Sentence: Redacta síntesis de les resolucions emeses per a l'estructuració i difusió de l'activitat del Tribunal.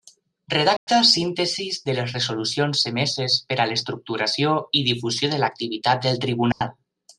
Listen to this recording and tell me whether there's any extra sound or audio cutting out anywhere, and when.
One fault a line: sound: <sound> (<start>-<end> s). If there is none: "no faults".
sound: dropout (0.8-0.9 s)
sound: dropout (6.5-6.6 s)